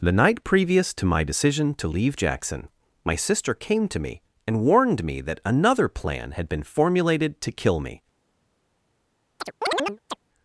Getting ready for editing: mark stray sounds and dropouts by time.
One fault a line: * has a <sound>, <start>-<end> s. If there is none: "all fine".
* has a chirp, 9.4-10.2 s